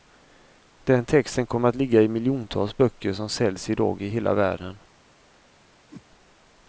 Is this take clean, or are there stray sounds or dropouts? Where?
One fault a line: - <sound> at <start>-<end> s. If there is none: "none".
- whoosh at 5.9-6.1 s